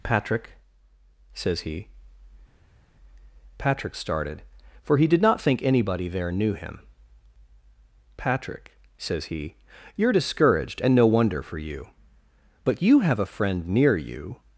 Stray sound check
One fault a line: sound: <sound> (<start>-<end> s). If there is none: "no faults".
no faults